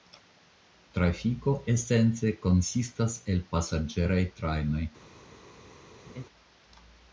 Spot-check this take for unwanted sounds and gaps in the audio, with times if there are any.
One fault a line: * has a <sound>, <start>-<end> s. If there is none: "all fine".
* has a laugh, 6.1-6.2 s